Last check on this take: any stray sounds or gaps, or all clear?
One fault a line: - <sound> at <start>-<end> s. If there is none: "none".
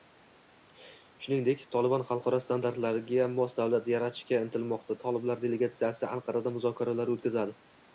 none